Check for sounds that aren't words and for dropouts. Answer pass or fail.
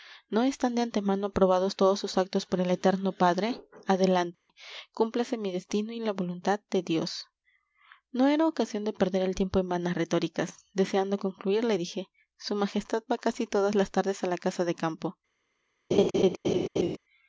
fail